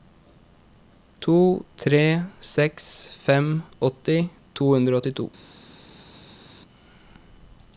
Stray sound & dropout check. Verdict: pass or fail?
pass